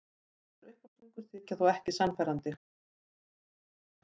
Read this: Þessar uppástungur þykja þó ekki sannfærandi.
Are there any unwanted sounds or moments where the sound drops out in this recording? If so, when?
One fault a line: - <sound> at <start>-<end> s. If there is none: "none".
none